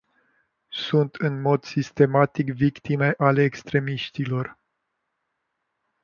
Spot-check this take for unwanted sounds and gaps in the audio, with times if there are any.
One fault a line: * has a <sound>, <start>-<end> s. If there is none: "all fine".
all fine